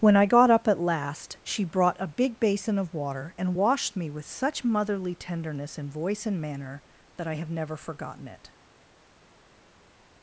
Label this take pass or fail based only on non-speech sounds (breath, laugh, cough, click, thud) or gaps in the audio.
pass